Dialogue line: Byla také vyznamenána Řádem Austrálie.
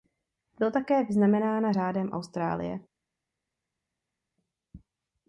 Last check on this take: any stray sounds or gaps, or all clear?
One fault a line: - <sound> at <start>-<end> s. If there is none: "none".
none